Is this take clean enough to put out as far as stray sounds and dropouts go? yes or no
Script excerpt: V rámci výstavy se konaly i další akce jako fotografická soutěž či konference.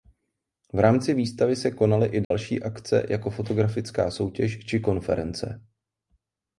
no